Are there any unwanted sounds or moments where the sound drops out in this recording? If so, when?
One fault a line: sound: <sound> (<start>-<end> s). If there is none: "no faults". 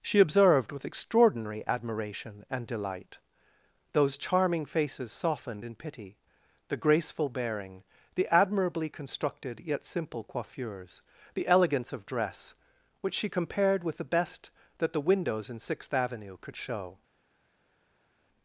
no faults